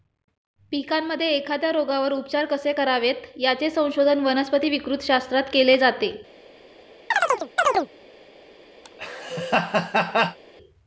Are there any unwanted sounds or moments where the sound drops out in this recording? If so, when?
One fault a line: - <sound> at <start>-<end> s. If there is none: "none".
- chirp at 7.1-7.9 s
- laugh at 8.8-10.4 s